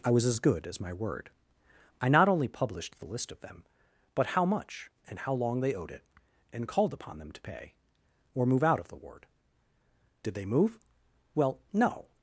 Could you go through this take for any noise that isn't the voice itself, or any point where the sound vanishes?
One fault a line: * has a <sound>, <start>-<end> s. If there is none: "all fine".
all fine